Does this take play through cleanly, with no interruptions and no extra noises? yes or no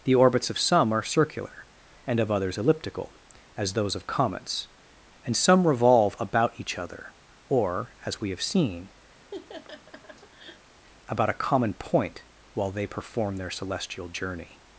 no